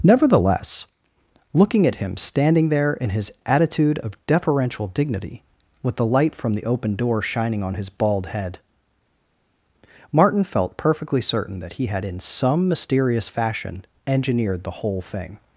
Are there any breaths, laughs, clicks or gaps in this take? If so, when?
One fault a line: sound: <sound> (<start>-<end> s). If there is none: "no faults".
no faults